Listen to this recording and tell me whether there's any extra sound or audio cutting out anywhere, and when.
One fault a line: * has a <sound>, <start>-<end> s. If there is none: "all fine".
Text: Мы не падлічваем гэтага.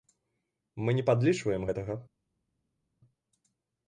all fine